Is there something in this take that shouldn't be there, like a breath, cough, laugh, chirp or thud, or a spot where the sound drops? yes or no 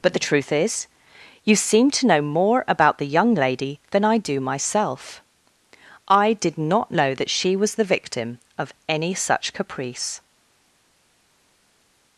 no